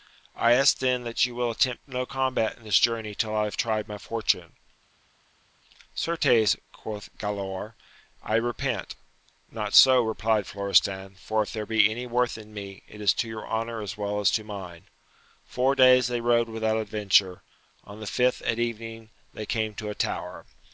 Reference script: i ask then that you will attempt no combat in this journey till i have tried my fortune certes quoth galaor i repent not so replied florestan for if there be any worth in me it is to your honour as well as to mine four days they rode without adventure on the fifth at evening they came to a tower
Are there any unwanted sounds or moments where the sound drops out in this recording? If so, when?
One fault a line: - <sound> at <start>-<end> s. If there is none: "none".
none